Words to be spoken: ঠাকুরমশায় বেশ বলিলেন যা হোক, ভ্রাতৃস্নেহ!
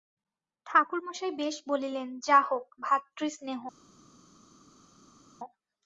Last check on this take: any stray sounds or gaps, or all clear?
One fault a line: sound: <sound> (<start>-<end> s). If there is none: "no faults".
no faults